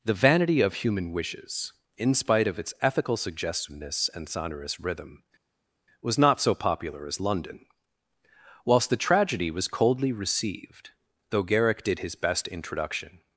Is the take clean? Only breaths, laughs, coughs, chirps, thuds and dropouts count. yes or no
yes